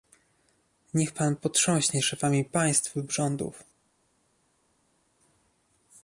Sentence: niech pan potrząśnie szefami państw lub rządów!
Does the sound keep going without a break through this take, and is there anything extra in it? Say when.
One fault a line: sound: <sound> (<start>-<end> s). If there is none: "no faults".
no faults